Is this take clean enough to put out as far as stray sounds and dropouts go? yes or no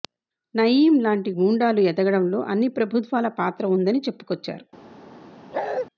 no